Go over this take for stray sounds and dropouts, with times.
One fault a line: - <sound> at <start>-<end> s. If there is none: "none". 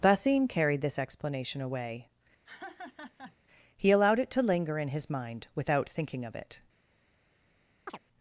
- laugh at 2.5-3.4 s
- chirp at 7.9-8.0 s